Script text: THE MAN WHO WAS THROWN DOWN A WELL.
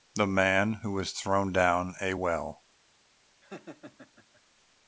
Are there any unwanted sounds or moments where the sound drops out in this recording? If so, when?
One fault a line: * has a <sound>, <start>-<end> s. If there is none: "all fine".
* has a laugh, 3.4-4.4 s